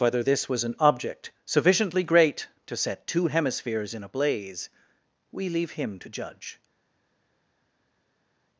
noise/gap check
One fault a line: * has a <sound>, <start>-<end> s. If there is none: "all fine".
all fine